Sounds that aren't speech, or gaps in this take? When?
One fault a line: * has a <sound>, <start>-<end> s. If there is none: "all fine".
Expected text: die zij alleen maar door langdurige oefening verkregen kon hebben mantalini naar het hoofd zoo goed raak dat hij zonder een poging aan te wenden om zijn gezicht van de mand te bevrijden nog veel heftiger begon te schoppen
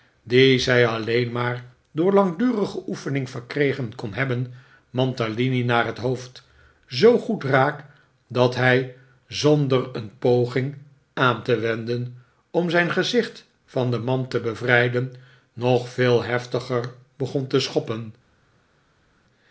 all fine